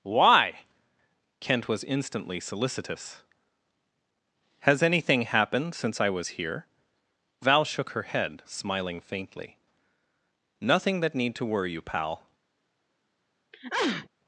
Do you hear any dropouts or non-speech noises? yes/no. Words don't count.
yes